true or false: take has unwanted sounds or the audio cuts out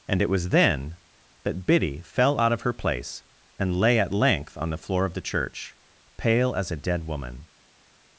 false